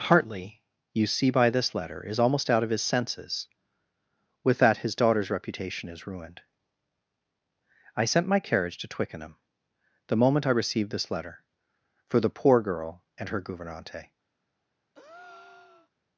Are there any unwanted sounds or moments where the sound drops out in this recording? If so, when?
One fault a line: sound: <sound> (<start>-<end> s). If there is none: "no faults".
sound: breath (14.9-15.9 s)